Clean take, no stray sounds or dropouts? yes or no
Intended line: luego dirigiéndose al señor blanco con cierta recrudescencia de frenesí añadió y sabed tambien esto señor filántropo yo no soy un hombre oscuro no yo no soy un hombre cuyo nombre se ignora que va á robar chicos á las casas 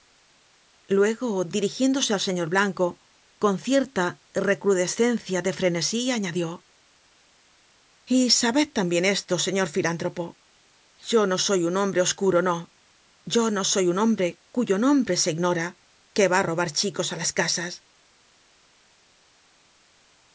yes